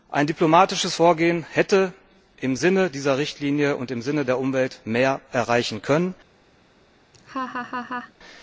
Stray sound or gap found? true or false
true